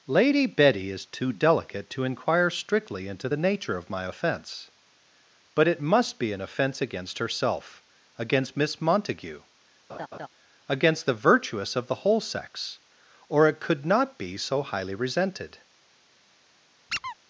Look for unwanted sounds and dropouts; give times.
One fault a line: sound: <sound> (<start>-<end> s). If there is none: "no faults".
sound: laugh (9.9-10.3 s)
sound: squeak (16.9-17.1 s)